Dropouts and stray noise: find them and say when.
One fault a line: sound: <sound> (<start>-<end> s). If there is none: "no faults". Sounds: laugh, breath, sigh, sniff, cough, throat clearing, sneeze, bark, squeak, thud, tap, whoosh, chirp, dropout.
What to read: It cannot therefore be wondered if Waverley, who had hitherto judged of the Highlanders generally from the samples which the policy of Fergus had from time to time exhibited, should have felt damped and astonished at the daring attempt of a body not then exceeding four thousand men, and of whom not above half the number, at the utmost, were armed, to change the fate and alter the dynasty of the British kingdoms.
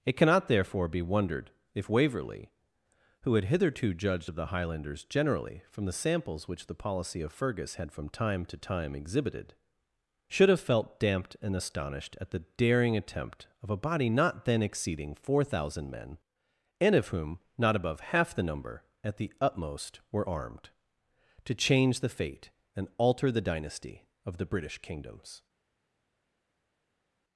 no faults